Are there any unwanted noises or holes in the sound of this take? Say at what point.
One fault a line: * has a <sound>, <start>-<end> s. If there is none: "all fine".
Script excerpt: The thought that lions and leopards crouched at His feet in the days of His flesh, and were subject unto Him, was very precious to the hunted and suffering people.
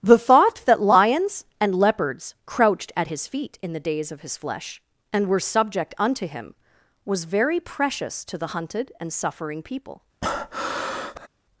* has a breath, 10.2-11.3 s